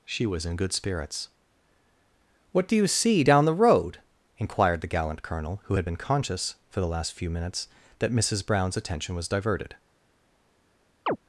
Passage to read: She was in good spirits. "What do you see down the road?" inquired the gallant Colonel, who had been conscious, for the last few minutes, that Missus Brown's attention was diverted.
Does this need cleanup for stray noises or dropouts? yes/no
yes